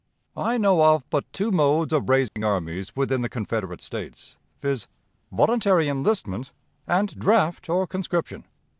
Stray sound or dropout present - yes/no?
yes